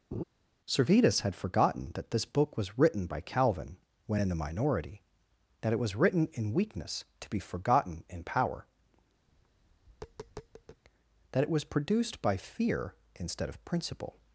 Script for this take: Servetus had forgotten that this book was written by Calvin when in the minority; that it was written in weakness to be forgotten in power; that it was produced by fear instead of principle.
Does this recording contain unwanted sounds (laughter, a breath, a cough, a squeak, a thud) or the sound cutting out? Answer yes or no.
yes